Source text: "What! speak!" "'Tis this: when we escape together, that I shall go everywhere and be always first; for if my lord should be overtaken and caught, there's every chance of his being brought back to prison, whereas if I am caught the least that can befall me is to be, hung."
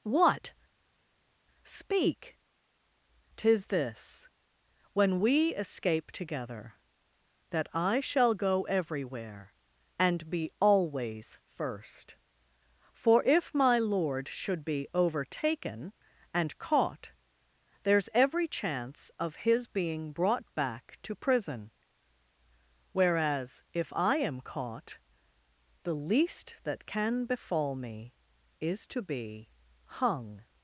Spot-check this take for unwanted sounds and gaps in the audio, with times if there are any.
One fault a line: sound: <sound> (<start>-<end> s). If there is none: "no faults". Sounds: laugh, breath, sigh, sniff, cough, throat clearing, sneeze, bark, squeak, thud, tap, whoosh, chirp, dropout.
no faults